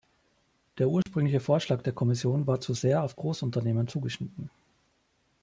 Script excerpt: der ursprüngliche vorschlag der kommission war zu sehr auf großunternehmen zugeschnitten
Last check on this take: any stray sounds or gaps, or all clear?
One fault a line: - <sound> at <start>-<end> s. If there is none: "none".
- dropout at 1.0-1.1 s